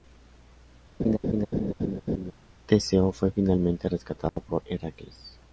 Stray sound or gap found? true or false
true